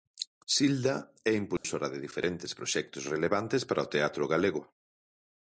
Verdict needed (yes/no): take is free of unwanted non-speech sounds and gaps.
no